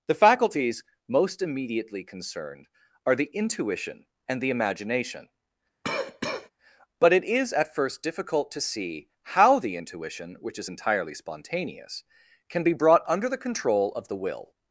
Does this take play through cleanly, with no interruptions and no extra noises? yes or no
no